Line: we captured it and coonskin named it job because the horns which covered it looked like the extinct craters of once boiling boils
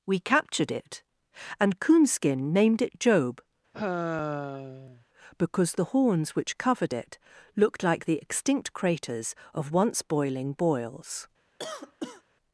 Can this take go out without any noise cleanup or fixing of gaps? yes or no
no